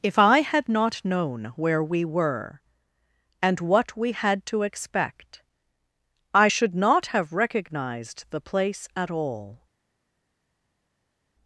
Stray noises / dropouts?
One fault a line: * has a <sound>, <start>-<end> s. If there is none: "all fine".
all fine